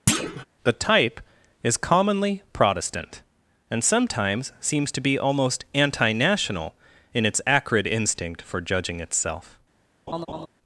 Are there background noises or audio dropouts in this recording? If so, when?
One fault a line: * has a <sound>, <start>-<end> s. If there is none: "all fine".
* has a thud, 0.1-0.5 s
* has a laugh, 10.1-10.5 s